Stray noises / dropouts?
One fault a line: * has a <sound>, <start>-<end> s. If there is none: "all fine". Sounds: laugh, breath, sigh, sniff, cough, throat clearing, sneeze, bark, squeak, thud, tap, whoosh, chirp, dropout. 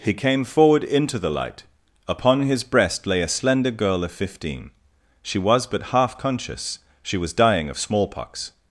all fine